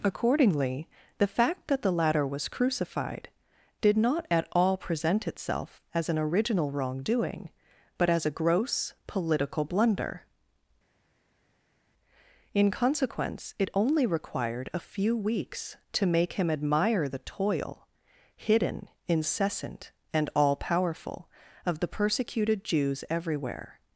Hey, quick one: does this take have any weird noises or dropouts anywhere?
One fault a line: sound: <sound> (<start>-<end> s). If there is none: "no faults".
no faults